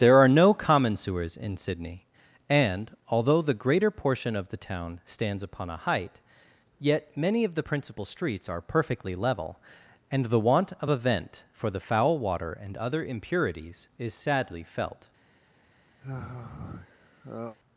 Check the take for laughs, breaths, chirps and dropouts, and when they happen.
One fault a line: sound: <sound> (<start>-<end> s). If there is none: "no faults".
sound: sigh (16.0-17.6 s)